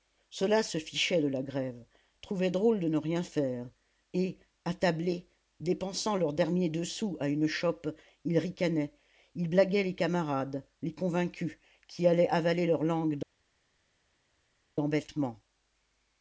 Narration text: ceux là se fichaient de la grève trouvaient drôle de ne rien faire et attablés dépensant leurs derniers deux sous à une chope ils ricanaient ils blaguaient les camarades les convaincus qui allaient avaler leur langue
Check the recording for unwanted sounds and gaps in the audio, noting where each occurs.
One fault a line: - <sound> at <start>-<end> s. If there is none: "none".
none